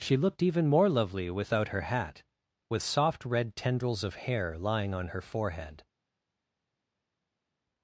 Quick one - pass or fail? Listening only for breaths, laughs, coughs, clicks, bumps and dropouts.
pass